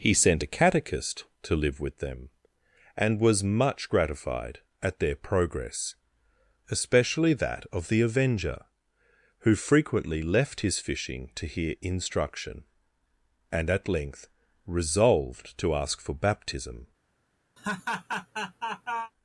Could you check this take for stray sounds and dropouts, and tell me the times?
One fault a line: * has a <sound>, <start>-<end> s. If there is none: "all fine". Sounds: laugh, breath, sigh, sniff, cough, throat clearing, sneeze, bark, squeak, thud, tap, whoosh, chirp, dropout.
* has a laugh, 17.6-19.1 s